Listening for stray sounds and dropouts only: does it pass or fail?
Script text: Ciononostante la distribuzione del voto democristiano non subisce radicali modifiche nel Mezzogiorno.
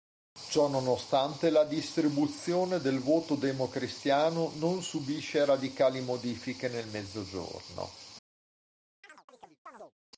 fail